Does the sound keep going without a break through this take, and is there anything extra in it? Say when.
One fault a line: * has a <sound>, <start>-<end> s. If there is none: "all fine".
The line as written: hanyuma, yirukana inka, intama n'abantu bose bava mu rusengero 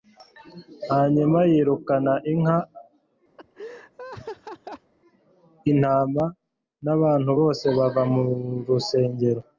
* has a laugh, 3.4-4.9 s